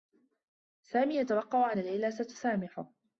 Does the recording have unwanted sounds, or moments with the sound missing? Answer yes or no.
no